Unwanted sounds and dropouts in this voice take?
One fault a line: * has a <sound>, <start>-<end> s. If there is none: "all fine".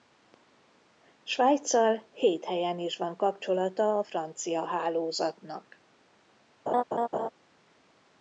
* has a laugh, 6.7-7.3 s